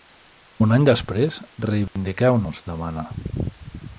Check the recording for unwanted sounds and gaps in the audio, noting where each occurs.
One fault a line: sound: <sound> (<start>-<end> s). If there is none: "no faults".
sound: dropout (1.9-2.0 s)